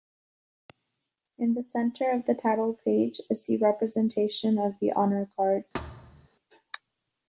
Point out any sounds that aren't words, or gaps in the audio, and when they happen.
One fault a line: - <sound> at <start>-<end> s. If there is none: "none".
- thud at 5.7-6.3 s